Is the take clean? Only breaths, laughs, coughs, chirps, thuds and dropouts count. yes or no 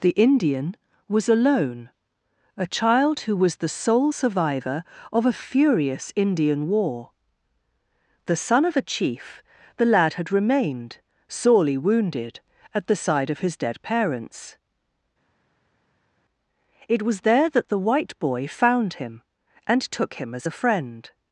yes